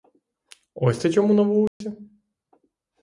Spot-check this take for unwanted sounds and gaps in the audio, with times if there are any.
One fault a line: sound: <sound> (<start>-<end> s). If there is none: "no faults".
sound: dropout (1.7-1.8 s)